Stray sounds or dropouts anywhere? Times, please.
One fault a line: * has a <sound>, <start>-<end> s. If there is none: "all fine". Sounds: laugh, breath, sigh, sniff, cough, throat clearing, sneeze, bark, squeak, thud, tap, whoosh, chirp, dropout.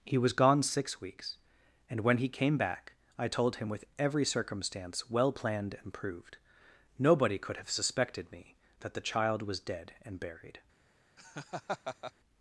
* has a laugh, 11.2-12.1 s